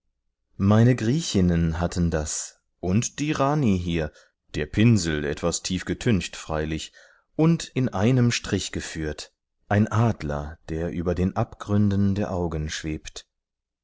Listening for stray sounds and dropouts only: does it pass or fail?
pass